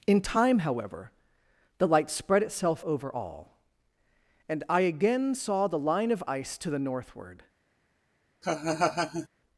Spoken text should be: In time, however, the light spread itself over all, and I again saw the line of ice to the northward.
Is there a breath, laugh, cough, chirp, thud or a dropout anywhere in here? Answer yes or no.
yes